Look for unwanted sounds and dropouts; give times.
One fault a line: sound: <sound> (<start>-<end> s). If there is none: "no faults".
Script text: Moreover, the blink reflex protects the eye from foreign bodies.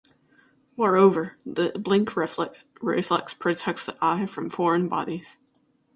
no faults